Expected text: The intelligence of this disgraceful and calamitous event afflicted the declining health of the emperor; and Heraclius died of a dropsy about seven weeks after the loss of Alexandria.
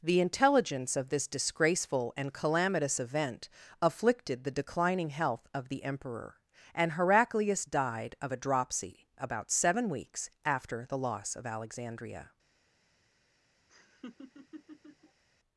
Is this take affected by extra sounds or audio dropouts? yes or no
yes